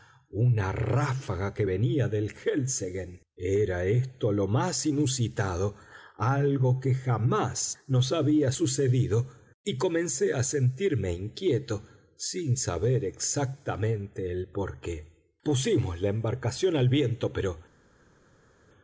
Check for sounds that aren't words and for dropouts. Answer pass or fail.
pass